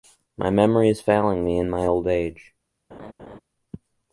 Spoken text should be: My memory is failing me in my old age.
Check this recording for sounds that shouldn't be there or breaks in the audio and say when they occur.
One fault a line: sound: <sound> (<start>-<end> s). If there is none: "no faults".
sound: laugh (2.9-3.4 s)